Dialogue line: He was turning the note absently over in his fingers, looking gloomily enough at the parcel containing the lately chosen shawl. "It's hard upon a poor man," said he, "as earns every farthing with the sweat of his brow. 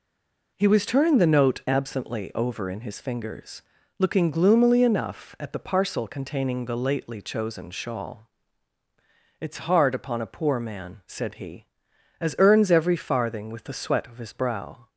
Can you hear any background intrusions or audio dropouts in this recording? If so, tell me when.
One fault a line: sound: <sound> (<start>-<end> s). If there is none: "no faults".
no faults